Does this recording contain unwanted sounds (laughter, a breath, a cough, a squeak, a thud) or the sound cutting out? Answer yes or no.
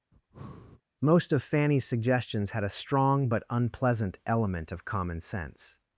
yes